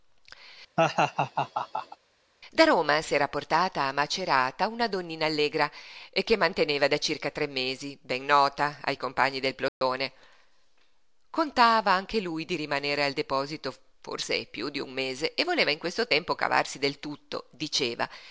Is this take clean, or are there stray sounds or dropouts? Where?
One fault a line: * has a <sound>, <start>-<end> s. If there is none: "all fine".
* has a laugh, 0.8-2.0 s
* has a dropout, 9.7-9.8 s